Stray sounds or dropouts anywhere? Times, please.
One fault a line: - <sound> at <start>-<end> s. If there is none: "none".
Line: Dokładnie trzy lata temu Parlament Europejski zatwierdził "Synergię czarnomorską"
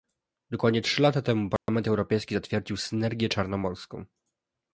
- dropout at 1.6-1.7 s